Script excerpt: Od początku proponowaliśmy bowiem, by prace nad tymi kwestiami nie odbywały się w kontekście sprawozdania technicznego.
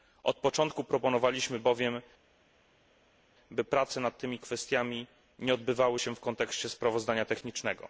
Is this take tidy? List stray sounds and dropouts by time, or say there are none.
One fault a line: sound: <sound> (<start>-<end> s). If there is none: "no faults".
no faults